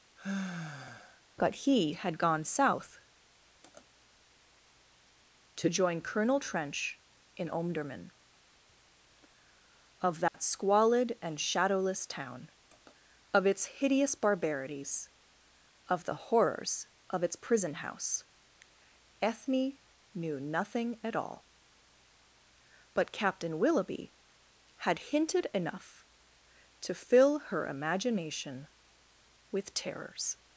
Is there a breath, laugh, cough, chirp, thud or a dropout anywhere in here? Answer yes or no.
yes